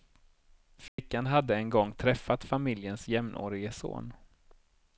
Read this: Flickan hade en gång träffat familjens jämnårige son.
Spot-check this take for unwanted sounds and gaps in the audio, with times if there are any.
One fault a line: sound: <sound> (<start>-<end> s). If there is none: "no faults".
sound: dropout (0.9-1.0 s)